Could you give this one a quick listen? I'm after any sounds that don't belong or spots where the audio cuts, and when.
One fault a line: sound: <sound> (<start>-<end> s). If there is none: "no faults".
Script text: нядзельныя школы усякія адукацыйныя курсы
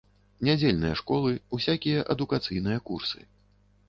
no faults